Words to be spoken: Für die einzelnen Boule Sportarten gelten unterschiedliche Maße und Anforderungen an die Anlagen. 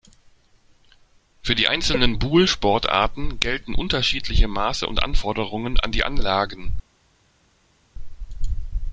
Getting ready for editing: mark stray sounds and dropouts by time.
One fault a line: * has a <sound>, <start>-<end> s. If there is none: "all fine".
all fine